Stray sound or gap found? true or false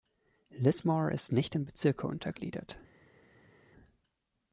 false